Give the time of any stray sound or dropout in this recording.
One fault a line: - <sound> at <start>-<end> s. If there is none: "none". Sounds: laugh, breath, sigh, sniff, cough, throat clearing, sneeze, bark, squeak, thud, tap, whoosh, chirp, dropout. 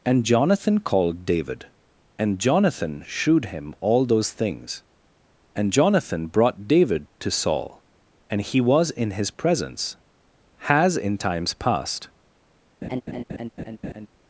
- laugh at 12.8-14.1 s